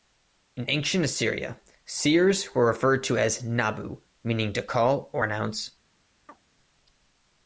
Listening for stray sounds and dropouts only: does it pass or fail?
fail